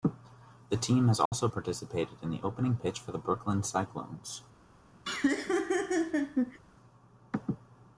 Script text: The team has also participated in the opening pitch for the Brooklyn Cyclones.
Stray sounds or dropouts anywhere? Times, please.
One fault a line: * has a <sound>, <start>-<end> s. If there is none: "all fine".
* has a dropout, 1.3-1.3 s
* has a laugh, 5.0-6.6 s